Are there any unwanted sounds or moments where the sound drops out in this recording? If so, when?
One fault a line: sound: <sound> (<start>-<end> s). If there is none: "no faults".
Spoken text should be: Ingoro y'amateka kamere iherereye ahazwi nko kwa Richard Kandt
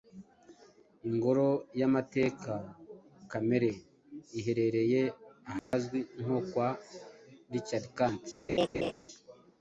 sound: dropout (5.6-5.7 s)
sound: laugh (8.5-8.9 s)